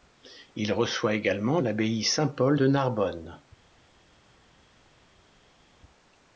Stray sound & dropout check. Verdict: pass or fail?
pass